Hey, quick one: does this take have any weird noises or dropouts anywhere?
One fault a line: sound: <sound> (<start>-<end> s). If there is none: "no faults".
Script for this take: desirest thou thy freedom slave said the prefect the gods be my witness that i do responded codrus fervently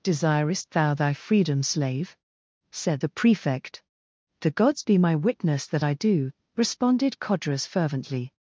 no faults